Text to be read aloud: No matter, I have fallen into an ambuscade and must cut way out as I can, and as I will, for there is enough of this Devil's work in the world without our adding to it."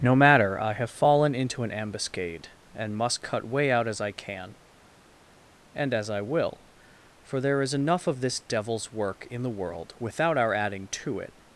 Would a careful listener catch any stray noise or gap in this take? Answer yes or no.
no